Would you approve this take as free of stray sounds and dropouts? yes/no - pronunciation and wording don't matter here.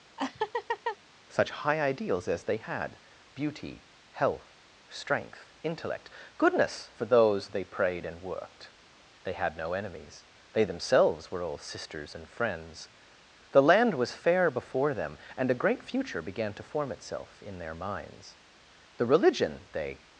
no